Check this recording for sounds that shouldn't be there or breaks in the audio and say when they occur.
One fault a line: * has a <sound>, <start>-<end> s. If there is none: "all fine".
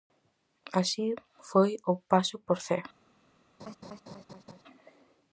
* has a laugh, 3.6-4.6 s